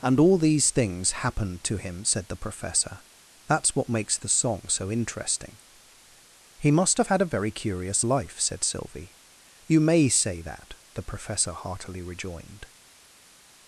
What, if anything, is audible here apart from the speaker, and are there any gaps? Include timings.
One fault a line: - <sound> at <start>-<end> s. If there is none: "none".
none